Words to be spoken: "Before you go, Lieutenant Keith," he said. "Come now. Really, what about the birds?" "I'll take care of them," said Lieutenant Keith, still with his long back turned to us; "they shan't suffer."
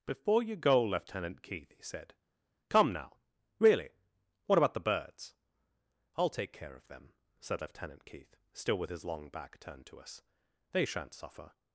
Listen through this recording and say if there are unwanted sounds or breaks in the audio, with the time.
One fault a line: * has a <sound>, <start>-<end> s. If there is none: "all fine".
all fine